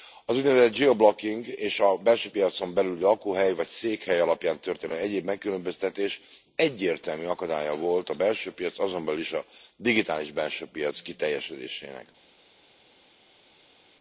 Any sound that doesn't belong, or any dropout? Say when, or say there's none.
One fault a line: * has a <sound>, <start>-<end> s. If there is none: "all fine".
all fine